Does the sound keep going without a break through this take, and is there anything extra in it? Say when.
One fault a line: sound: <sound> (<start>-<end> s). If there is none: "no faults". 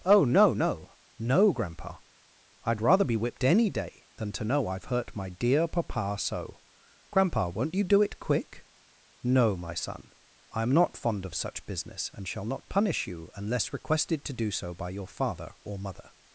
no faults